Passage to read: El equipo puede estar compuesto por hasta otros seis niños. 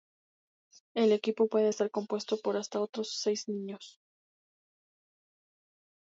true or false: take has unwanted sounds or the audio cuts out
false